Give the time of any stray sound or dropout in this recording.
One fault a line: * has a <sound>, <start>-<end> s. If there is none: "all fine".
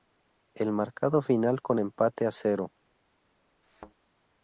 * has a thud, 3.6-3.9 s